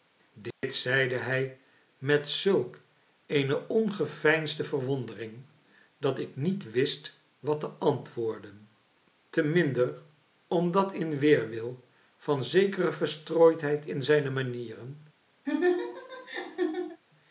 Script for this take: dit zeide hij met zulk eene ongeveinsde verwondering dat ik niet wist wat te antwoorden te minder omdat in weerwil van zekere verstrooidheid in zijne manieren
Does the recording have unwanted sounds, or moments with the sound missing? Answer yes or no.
yes